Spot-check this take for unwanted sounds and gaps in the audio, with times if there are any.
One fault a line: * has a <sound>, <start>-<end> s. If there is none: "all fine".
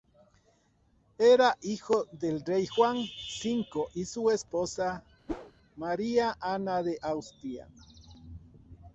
* has a whoosh, 5.3-5.5 s